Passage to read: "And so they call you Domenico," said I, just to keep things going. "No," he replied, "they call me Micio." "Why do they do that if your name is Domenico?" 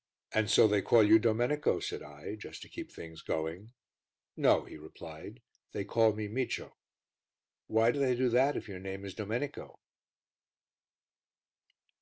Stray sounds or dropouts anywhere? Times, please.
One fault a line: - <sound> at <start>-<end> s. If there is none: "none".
none